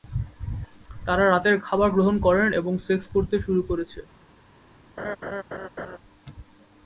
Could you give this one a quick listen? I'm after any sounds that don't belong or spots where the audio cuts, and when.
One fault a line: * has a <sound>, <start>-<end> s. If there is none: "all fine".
* has a laugh, 5.0-6.0 s